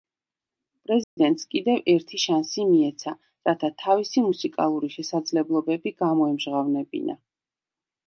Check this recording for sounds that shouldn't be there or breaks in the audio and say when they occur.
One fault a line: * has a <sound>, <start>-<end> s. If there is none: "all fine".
* has a dropout, 1.0-1.2 s